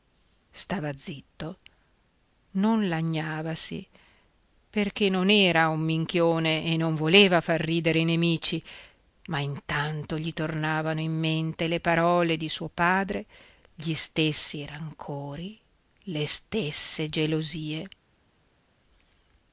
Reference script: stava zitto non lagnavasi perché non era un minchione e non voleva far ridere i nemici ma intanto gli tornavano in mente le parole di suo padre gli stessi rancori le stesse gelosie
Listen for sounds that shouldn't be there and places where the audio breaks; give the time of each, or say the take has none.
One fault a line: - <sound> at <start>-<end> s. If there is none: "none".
none